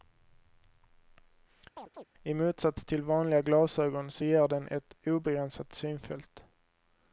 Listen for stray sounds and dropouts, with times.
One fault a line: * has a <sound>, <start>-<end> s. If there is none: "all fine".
* has a chirp, 1.8-2.0 s